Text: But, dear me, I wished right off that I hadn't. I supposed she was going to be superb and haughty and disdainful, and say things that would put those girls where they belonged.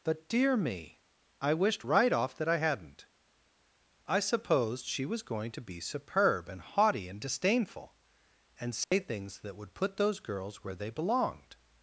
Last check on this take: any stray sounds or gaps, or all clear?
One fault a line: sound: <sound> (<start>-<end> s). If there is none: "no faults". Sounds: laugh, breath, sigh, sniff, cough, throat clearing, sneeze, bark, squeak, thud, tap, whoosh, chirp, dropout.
sound: dropout (8.8-8.9 s)